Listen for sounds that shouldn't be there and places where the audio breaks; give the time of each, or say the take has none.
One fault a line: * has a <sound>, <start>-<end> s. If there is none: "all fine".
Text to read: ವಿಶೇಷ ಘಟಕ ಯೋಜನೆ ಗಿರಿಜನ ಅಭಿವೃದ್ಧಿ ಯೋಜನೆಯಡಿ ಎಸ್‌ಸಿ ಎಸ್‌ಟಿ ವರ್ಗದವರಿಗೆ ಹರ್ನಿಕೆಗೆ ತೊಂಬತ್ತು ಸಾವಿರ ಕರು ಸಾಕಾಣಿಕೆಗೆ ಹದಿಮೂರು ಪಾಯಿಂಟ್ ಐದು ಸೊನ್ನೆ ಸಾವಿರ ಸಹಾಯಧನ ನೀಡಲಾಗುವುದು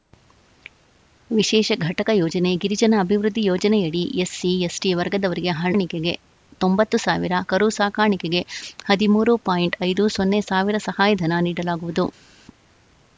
all fine